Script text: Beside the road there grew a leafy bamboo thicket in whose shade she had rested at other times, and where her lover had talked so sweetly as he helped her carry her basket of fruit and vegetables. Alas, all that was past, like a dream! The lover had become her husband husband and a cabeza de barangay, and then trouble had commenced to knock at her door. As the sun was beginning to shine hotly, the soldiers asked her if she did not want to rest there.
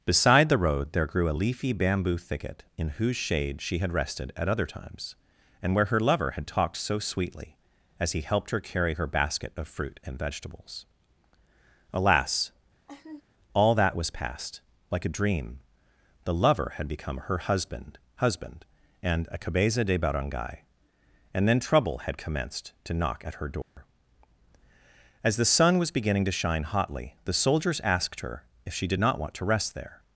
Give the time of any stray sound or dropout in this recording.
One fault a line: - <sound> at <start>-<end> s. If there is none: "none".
- laugh at 12.9-13.2 s
- dropout at 23.6-23.8 s